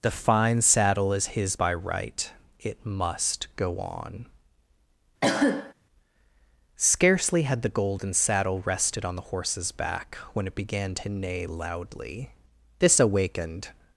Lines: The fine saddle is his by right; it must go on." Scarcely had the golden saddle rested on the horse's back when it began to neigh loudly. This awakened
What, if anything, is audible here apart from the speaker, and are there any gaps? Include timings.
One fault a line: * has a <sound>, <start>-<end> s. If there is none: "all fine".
* has a cough, 5.2-5.7 s